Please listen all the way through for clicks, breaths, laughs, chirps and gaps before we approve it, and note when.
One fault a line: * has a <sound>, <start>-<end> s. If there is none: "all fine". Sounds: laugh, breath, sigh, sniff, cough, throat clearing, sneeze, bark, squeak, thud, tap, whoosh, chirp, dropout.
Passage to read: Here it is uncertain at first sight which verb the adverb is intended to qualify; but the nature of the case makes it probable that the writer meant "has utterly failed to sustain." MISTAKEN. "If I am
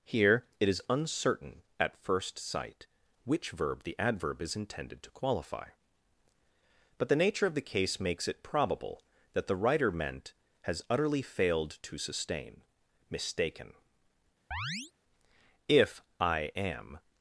* has a chirp, 14.5-14.9 s